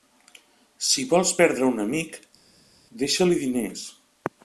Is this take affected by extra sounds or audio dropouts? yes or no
no